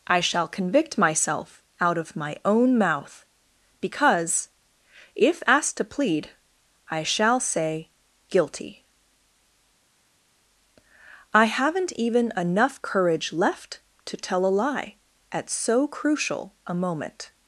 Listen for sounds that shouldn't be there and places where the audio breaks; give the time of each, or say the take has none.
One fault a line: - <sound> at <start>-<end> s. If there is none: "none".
none